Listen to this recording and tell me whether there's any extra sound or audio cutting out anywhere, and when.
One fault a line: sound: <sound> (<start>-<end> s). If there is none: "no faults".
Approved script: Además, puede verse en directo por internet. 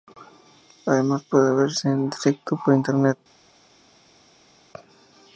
no faults